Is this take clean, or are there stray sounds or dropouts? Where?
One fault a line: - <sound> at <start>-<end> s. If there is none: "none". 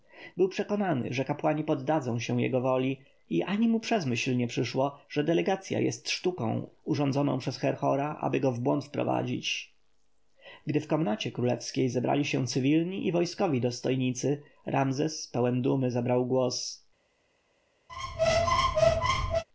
- squeak at 17.9-19.4 s